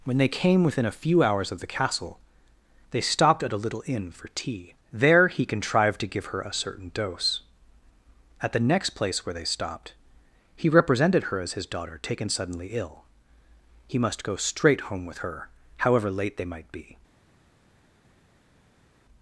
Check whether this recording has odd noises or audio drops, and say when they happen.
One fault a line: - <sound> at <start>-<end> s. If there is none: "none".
none